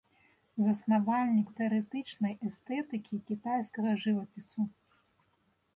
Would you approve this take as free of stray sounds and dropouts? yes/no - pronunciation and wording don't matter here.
yes